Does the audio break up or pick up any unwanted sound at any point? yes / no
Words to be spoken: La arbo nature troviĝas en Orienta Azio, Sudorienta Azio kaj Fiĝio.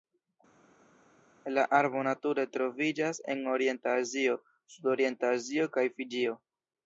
no